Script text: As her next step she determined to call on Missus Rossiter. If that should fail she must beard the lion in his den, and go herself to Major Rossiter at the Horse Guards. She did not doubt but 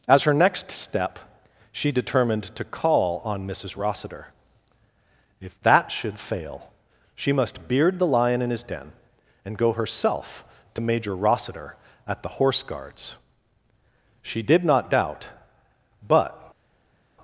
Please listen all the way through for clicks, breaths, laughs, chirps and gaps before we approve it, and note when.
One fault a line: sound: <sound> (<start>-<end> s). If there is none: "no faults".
no faults